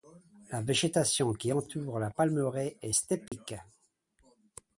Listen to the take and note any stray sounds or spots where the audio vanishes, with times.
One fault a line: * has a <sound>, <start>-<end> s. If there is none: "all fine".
* has a dropout, 3.3-3.3 s